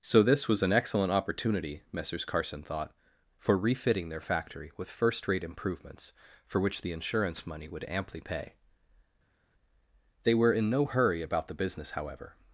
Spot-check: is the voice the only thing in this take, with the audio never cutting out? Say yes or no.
yes